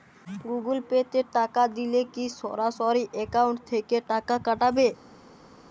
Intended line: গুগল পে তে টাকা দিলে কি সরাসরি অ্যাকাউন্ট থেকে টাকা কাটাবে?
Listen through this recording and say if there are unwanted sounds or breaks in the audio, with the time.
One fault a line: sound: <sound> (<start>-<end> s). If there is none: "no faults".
no faults